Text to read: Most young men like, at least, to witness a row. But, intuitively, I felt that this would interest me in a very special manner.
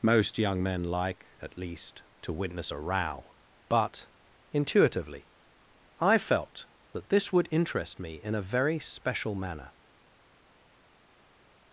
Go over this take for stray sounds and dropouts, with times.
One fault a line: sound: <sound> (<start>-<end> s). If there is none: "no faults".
no faults